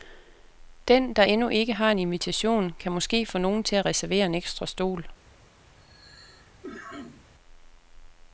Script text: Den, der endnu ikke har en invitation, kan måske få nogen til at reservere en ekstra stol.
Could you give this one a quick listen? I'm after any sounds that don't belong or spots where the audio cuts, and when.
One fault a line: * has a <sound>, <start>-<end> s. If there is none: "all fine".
* has a cough, 5.8-7.3 s